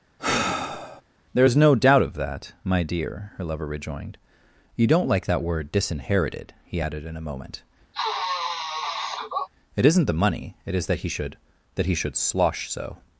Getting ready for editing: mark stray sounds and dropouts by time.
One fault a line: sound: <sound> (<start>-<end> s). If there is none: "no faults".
sound: sigh (0.2-1.0 s)
sound: sniff (7.9-9.5 s)